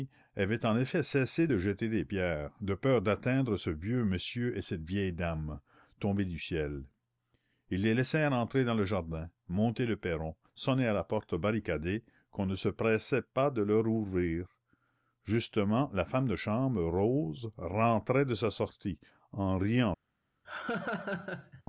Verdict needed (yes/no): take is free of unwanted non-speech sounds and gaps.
no